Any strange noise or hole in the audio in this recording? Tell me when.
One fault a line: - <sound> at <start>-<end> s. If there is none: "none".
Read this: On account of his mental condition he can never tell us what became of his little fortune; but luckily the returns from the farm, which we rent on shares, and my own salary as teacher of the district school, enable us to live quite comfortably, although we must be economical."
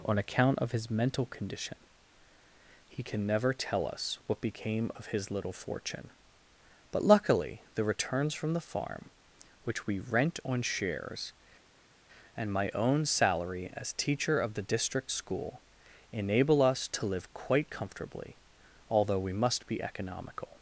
none